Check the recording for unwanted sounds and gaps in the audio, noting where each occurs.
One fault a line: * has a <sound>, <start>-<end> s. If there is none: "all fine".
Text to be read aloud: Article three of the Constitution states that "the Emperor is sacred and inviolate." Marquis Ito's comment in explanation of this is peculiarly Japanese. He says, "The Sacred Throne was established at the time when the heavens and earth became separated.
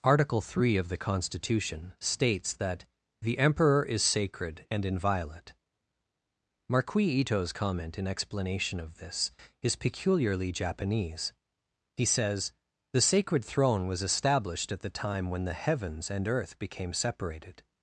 all fine